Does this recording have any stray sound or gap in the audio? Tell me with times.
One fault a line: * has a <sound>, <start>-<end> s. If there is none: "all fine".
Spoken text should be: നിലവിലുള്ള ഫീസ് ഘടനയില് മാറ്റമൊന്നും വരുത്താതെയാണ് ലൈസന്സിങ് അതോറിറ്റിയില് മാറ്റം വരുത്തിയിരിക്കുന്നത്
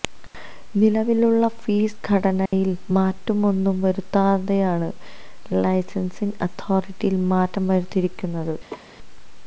* has a dropout, 2.5-2.5 s
* has a laugh, 8.7-9.0 s